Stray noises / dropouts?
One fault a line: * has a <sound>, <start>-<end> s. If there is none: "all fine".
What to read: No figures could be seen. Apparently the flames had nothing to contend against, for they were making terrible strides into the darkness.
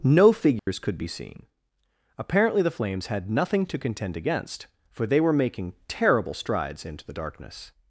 * has a dropout, 0.6-0.7 s